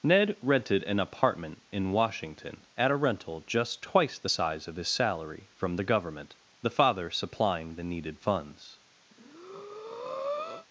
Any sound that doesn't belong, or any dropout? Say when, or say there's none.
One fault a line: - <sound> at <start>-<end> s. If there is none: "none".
- breath at 9.1-10.7 s